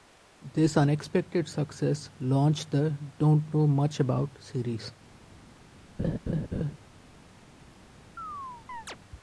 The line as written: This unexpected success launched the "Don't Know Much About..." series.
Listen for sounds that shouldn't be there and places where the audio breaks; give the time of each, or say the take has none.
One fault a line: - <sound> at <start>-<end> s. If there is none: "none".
- laugh at 6.0-6.8 s
- chirp at 8.2-9.0 s